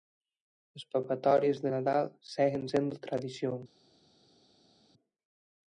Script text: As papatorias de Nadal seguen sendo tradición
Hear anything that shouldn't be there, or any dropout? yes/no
no